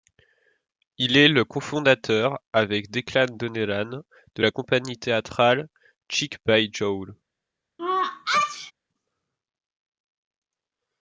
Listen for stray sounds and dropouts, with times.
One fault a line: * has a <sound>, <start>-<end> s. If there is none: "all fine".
* has a sneeze, 7.8-8.7 s